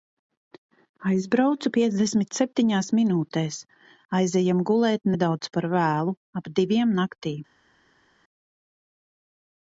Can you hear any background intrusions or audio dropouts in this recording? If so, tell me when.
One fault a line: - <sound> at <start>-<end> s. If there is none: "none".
none